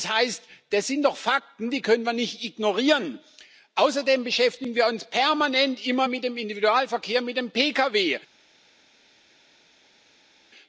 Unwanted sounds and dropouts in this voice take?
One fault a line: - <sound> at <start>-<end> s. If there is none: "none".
none